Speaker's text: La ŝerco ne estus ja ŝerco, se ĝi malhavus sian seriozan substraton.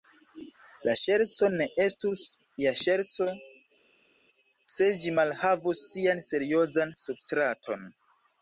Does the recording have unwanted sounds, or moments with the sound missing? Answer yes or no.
no